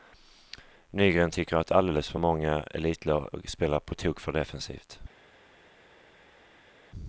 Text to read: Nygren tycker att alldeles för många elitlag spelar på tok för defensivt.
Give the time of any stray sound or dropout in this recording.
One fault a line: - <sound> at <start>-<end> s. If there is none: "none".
none